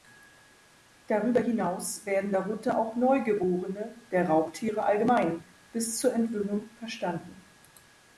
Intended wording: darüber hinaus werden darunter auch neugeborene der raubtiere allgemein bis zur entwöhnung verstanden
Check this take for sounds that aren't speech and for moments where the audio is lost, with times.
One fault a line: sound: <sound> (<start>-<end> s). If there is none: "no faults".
no faults